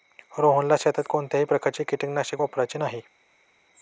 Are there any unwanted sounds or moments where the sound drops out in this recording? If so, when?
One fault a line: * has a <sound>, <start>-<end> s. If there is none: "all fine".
all fine